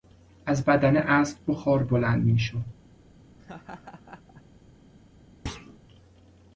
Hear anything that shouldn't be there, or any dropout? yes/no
yes